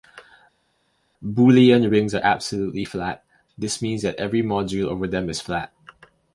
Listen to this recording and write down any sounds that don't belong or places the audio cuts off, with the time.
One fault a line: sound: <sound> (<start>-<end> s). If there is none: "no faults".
no faults